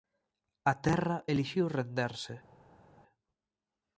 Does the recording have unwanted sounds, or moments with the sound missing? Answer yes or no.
no